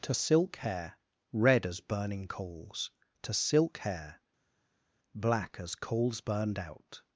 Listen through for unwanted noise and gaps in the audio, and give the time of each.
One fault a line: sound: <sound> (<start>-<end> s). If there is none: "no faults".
no faults